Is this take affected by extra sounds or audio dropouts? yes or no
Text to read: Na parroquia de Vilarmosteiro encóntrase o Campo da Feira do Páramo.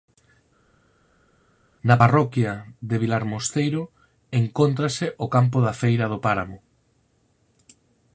no